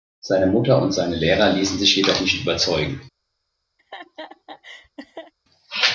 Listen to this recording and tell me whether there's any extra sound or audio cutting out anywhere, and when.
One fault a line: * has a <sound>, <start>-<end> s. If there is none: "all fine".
* has a laugh, 3.8-5.3 s